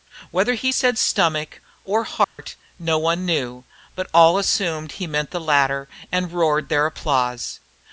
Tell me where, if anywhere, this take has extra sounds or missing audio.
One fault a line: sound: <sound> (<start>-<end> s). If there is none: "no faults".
sound: dropout (2.2-2.4 s)